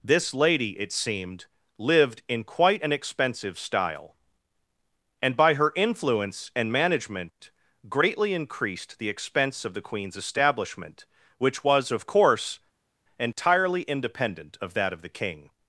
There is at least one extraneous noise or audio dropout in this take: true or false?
false